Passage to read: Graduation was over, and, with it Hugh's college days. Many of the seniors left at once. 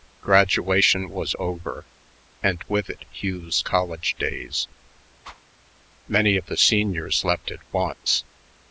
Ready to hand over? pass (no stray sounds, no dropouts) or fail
fail